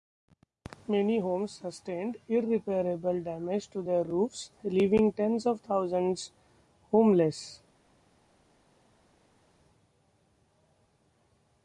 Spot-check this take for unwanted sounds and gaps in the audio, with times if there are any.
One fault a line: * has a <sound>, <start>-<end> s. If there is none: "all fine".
all fine